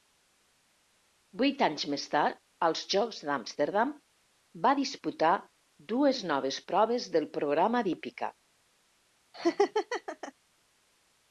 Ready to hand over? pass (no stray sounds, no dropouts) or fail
fail